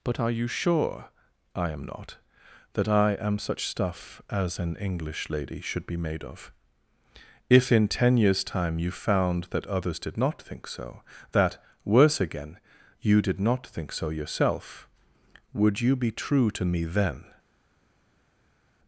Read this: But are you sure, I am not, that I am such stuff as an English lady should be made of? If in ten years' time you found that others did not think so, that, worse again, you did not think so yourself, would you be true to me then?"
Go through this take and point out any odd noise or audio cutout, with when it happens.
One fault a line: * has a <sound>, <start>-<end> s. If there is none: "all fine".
all fine